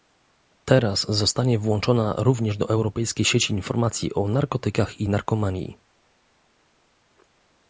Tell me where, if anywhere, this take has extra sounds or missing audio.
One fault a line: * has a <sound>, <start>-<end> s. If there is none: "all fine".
all fine